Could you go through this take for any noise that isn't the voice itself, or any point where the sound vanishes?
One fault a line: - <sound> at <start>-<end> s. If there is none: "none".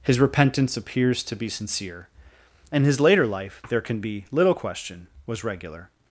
none